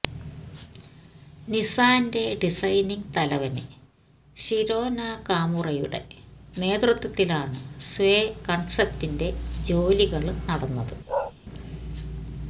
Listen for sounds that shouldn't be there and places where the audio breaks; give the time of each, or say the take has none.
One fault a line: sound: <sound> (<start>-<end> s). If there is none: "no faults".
sound: bark (11.1-11.3 s)